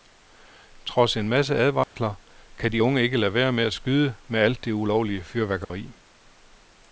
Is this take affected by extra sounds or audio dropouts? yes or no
yes